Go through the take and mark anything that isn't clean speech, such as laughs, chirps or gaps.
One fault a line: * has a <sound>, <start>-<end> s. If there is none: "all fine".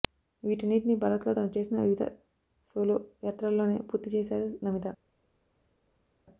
all fine